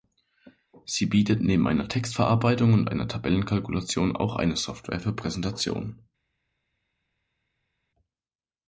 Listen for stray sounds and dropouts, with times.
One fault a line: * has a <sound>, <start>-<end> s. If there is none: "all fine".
all fine